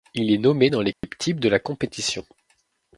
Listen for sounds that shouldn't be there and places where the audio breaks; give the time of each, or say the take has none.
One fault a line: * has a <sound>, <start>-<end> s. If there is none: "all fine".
* has a dropout, 0.9-1.0 s